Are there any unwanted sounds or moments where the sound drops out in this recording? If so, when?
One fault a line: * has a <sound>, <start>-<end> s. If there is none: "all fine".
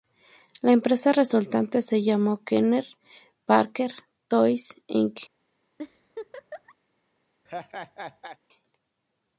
* has a laugh, 5.8-6.8 s
* has a laugh, 7.5-8.4 s